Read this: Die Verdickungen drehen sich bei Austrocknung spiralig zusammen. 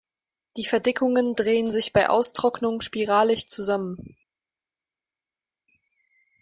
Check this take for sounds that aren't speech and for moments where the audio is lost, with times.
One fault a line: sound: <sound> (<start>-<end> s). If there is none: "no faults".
no faults